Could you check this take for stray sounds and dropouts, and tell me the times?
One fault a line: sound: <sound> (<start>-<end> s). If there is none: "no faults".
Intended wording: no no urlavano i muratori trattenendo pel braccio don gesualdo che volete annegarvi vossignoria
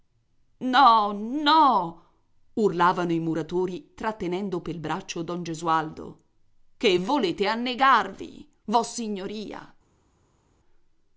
no faults